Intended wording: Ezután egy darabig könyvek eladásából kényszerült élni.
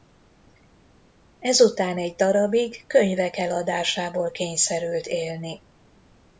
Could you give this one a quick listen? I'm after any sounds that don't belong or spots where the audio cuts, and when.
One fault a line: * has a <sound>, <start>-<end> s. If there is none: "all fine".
all fine